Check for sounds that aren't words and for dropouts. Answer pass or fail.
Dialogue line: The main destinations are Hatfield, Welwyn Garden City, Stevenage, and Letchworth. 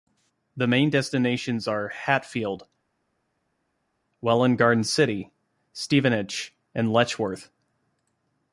pass